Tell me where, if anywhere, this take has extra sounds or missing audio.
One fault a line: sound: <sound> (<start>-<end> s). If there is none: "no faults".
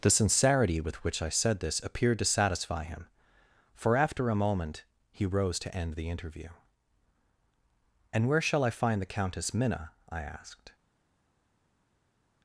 no faults